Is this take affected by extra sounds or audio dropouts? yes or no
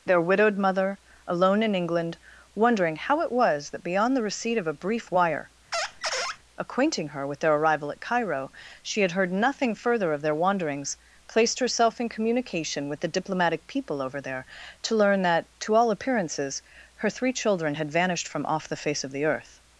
yes